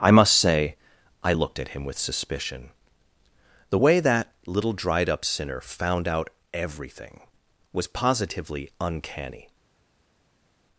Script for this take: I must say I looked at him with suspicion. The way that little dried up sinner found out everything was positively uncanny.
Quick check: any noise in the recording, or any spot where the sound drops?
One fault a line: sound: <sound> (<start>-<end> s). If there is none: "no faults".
no faults